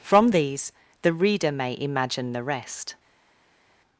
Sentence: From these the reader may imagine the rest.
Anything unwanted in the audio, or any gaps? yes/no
no